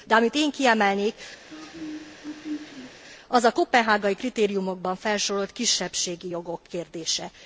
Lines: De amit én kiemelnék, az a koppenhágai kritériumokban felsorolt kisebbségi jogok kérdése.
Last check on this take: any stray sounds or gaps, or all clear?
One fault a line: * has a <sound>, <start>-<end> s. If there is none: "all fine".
* has a throat clearing, 1.5-3.0 s